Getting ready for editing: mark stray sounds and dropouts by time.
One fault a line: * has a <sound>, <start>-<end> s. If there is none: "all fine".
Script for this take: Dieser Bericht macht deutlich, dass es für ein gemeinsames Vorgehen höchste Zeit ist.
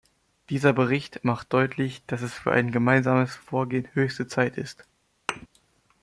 * has a thud, 5.3-5.5 s